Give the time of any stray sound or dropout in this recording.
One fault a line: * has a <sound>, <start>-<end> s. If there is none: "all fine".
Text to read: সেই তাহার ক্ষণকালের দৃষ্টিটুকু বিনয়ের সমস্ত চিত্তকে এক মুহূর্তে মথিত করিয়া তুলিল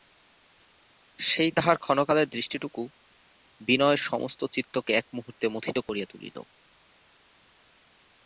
all fine